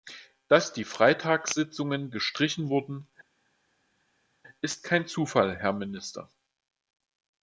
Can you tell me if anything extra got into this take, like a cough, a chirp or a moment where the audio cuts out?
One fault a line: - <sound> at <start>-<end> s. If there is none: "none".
none